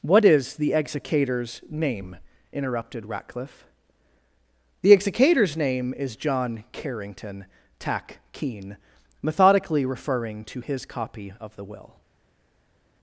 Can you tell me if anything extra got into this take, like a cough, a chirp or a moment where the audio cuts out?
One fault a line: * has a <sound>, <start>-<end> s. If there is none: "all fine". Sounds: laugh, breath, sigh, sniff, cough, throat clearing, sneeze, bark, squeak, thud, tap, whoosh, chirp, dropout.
all fine